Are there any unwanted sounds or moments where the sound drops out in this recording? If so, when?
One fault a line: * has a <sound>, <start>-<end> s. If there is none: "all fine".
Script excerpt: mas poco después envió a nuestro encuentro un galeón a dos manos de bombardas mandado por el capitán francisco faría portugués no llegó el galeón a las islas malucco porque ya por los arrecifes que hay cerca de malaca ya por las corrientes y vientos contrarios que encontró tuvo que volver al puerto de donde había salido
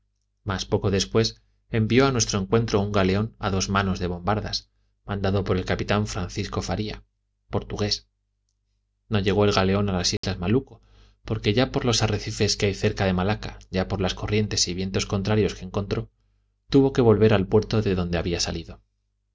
* has a dropout, 10.2-10.2 s